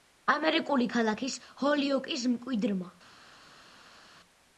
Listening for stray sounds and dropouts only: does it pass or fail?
pass